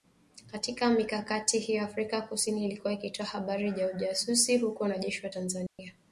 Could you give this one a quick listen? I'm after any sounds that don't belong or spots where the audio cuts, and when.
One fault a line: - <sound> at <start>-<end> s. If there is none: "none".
- dropout at 5.7-5.8 s